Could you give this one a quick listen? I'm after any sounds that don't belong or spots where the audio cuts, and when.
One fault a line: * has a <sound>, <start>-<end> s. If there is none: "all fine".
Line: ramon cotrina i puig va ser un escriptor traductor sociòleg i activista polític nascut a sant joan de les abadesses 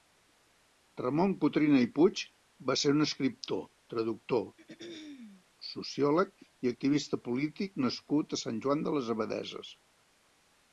* has a throat clearing, 4.6-5.4 s